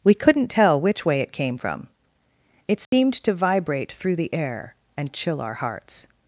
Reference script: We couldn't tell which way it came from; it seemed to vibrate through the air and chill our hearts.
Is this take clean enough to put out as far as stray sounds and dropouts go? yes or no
no